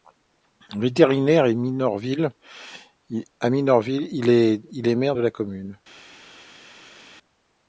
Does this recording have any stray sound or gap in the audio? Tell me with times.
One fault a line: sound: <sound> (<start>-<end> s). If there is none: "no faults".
no faults